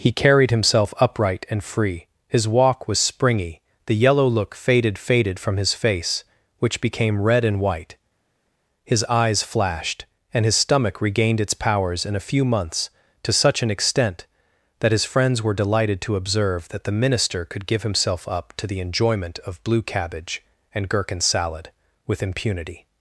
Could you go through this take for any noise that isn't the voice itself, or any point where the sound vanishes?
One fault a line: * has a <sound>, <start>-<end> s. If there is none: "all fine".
all fine